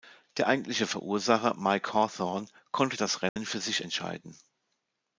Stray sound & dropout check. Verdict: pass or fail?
fail